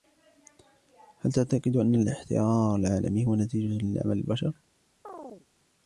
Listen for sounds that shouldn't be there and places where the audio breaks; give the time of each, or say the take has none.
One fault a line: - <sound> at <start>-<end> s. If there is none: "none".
- chirp at 5.0-5.5 s